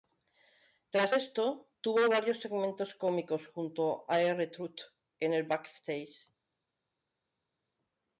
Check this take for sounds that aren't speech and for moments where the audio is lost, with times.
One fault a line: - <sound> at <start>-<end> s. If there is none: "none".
none